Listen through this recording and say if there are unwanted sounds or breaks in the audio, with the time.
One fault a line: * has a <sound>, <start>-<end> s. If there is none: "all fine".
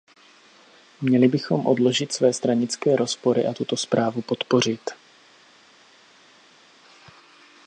all fine